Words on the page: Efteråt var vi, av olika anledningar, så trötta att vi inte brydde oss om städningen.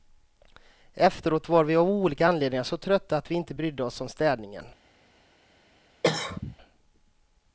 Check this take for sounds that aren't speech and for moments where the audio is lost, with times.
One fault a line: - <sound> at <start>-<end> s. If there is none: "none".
- cough at 6.0-6.6 s